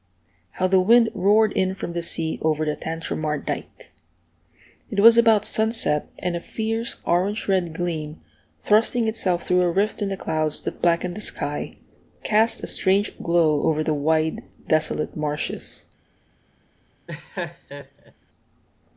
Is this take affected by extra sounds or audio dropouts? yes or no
yes